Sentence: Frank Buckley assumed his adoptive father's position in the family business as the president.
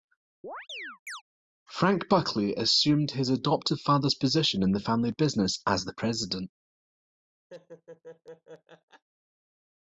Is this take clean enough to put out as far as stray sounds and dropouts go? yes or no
no